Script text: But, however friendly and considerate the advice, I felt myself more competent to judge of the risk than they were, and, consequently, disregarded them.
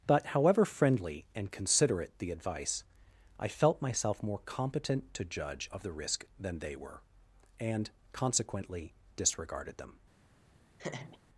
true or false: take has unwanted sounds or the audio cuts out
true